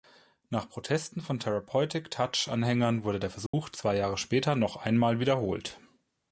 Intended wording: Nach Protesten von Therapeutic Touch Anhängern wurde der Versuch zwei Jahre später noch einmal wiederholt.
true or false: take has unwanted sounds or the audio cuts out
true